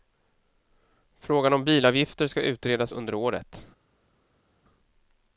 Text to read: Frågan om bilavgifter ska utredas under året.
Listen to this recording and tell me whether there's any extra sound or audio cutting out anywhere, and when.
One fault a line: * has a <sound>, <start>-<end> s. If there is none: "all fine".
all fine